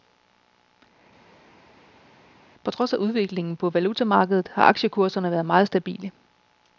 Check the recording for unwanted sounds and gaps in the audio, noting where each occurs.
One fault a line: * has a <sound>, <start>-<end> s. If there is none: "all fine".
all fine